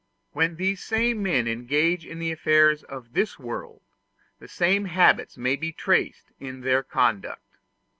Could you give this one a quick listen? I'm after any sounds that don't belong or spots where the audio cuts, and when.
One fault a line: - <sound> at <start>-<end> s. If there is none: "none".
none